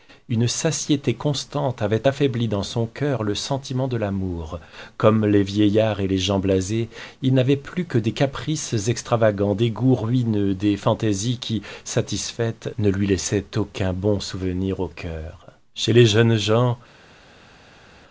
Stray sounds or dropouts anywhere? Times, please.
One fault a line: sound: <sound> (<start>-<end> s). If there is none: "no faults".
no faults